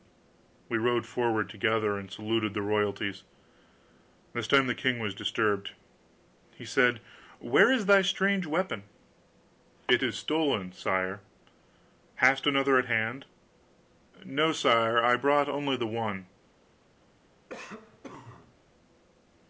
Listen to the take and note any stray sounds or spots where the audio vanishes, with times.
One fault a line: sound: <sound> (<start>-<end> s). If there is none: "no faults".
sound: cough (17.5-18.5 s)